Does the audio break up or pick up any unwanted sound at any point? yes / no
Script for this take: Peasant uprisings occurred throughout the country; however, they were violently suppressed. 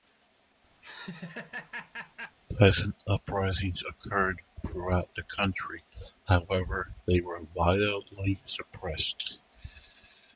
yes